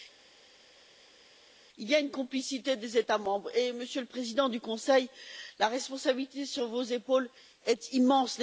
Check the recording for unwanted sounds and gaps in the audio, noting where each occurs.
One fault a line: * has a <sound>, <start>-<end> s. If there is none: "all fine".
all fine